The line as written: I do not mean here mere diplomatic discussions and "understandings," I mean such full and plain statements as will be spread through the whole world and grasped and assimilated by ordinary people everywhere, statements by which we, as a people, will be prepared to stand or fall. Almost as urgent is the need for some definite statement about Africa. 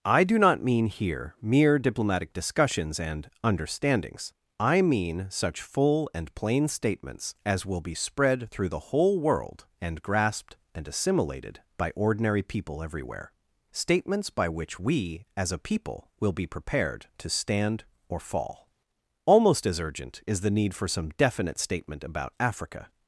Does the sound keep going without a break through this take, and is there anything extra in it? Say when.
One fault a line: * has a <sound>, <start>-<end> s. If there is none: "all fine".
all fine